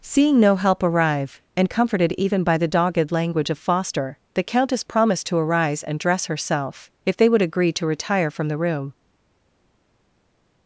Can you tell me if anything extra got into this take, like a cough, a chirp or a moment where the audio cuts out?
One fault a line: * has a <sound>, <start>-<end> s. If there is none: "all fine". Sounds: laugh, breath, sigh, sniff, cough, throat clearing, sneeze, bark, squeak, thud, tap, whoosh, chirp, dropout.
all fine